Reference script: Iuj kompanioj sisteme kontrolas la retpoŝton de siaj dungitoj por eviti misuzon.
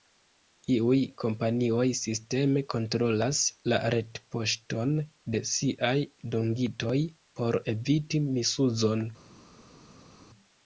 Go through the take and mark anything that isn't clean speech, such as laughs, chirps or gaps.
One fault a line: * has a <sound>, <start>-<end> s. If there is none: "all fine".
all fine